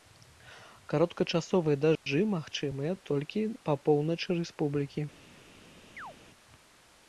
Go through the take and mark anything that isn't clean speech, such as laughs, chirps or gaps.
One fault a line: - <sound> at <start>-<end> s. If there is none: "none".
- dropout at 2.0-2.1 s
- chirp at 6.0-6.2 s